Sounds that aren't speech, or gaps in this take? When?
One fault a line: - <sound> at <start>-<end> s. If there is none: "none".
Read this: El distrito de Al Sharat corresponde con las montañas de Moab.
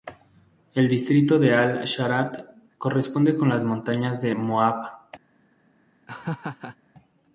- laugh at 6.1-6.8 s